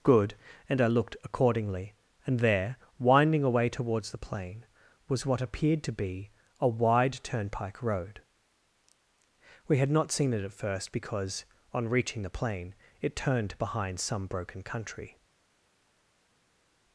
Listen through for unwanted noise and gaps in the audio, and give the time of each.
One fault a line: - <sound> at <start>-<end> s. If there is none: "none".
none